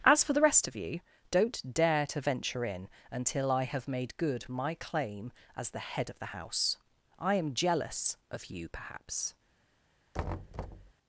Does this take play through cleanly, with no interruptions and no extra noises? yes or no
no